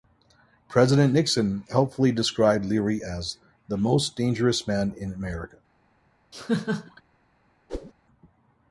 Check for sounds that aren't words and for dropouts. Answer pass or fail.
fail